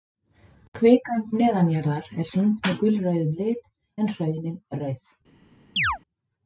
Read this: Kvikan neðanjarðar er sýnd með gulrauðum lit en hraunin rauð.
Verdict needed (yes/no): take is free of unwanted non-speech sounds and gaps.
no